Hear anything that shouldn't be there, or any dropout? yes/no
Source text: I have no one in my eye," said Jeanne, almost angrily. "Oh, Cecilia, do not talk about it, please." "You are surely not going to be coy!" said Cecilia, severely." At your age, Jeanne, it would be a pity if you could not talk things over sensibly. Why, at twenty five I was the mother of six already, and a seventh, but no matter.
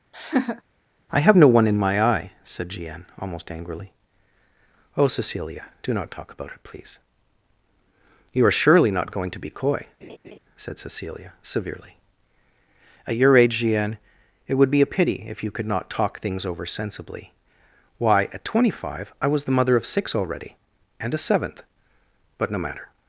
yes